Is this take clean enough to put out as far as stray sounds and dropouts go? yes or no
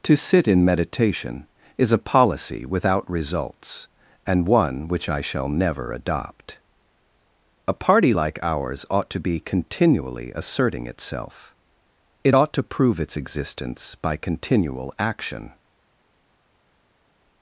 yes